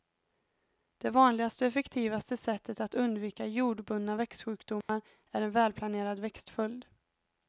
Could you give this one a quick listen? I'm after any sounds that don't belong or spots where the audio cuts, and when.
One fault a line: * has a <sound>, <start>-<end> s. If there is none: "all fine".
* has a dropout, 4.8-4.9 s